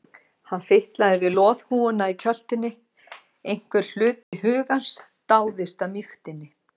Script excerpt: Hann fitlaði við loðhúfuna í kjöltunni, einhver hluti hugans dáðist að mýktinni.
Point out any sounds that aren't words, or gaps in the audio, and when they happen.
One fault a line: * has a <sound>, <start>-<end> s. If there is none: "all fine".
* has a dropout, 4.2-4.3 s